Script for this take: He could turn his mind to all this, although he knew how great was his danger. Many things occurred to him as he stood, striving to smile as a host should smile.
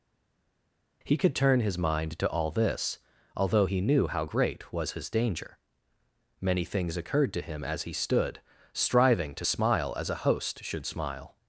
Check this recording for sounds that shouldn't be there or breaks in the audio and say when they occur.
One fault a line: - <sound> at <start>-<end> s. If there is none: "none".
none